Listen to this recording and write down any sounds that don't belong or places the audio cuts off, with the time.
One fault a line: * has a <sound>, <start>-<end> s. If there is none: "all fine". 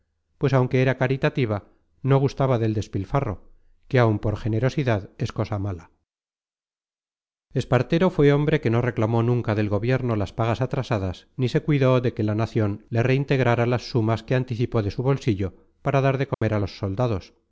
* has a dropout, 16.3-16.4 s